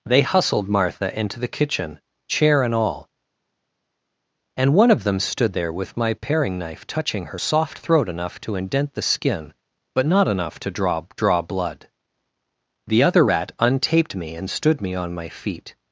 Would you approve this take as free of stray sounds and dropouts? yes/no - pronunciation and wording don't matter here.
yes